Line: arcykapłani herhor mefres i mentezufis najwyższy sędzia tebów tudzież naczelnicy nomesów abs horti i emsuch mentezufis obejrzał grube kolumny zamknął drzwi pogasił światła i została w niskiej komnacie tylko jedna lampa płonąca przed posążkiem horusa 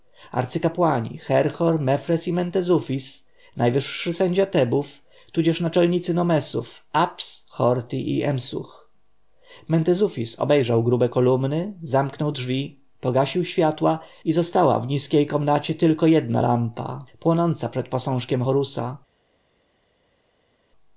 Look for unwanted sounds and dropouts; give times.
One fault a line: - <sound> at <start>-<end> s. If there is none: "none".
none